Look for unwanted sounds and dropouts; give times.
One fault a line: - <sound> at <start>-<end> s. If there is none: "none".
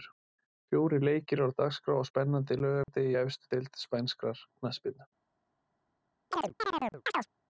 - dropout at 2.8-2.9 s
- chirp at 6.3-7.3 s